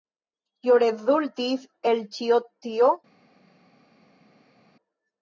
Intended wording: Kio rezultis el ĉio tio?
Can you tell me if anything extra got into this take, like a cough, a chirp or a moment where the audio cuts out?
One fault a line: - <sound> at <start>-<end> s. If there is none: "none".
none